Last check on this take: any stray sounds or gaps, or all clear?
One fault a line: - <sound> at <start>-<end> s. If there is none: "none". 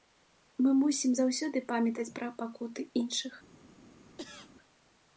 - cough at 4.2-4.5 s